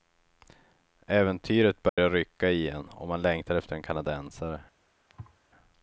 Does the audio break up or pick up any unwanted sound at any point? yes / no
yes